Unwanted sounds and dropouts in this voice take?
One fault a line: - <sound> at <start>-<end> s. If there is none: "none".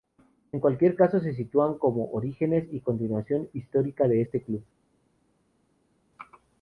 none